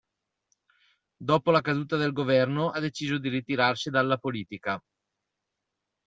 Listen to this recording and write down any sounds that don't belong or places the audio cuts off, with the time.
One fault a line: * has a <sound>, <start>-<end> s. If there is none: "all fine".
all fine